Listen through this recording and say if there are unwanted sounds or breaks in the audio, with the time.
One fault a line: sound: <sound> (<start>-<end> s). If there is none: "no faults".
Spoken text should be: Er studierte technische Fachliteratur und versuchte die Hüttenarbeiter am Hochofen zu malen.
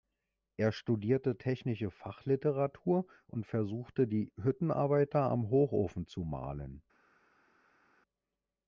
no faults